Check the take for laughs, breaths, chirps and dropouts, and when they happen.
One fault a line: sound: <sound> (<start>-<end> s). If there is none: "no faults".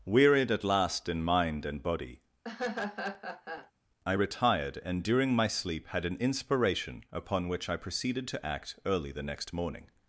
sound: laugh (2.4-3.7 s)